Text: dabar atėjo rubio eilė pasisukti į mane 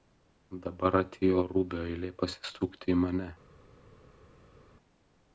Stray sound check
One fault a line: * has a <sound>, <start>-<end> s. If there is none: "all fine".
all fine